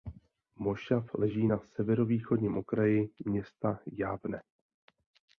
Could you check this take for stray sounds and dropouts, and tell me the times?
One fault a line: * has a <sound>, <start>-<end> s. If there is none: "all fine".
all fine